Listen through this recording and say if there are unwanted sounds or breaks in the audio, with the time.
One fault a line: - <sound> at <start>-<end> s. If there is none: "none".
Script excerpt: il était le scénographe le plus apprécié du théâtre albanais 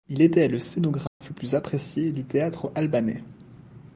- dropout at 1.1-1.2 s